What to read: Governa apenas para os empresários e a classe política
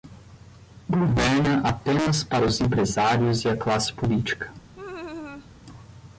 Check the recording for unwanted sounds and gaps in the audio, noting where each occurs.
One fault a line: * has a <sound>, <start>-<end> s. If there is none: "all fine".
* has a laugh, 4.7-5.5 s